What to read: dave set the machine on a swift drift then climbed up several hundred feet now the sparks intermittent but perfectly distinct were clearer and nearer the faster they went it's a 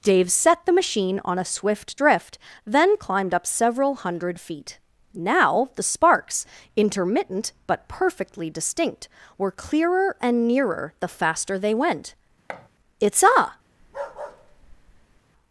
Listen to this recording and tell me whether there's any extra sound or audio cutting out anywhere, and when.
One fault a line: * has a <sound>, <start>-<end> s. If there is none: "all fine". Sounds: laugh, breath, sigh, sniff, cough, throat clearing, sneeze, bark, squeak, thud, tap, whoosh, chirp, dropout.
* has a thud, 12.5-12.7 s
* has a bark, 13.8-15.2 s